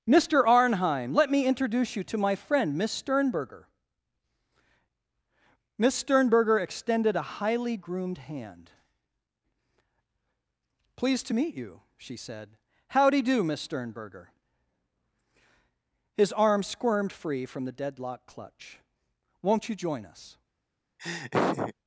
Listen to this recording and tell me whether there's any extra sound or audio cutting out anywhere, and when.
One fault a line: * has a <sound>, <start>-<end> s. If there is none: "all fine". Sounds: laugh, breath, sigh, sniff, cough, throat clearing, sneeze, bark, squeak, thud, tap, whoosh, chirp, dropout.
* has a laugh, 21.0-21.7 s